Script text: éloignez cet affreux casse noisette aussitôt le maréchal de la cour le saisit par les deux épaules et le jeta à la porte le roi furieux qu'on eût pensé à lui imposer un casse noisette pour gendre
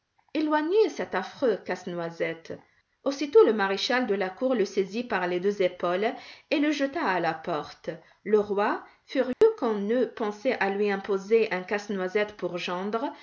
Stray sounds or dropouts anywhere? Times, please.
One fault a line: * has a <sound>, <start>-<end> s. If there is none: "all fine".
* has a dropout, 9.3-9.4 s